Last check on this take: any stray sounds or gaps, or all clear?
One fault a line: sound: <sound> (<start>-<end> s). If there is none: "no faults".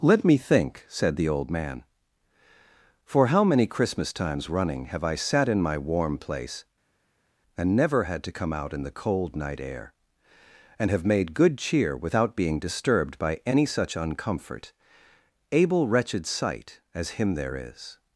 no faults